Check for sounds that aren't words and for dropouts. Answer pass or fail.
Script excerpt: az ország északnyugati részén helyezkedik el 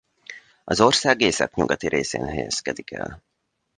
pass